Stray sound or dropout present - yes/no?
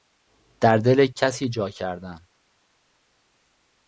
no